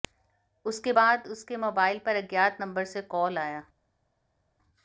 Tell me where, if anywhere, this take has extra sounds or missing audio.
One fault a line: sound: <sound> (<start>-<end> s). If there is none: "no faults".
no faults